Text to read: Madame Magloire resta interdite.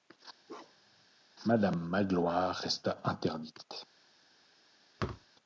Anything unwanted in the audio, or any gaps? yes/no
yes